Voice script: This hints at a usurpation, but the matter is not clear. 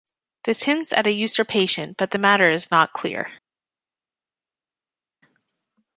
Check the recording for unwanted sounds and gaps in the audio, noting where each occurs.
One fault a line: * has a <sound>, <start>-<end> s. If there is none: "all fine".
all fine